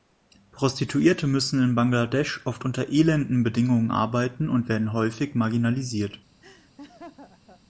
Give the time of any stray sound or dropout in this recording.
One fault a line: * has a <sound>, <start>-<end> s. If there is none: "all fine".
* has a laugh, 6.4-7.6 s